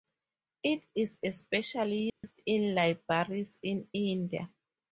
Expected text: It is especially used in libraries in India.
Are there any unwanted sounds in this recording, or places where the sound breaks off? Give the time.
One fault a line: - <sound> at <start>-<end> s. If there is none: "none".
- dropout at 2.1-2.2 s